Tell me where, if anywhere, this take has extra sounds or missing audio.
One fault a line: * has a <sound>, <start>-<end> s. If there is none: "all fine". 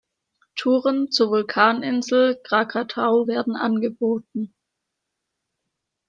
all fine